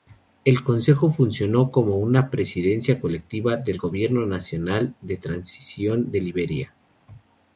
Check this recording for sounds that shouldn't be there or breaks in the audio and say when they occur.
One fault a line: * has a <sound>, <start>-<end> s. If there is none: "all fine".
all fine